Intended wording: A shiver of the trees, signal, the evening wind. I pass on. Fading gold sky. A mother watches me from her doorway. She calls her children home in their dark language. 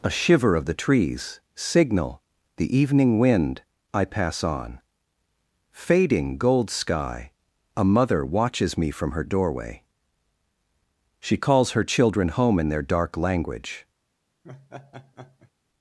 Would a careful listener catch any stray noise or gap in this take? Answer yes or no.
yes